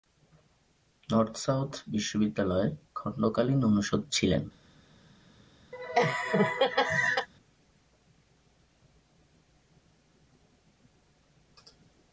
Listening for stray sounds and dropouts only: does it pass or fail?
fail